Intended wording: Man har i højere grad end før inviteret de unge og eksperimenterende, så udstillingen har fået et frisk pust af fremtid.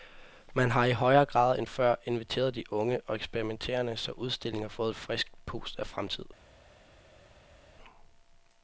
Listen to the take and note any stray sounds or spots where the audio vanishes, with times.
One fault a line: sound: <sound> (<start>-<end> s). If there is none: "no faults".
no faults